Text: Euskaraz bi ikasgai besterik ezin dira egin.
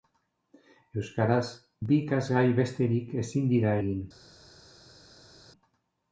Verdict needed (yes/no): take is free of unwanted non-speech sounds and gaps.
yes